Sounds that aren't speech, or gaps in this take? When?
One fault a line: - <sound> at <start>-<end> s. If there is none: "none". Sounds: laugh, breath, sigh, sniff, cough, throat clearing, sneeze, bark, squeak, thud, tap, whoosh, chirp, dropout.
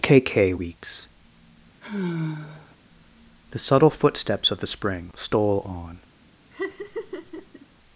- sigh at 1.8-2.8 s
- laugh at 6.5-7.7 s